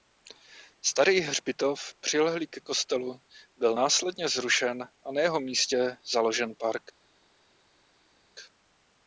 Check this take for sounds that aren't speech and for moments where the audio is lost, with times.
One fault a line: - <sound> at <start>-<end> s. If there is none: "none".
none